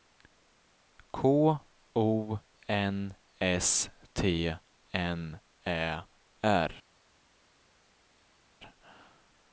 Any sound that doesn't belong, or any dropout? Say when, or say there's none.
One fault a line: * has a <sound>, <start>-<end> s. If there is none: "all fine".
all fine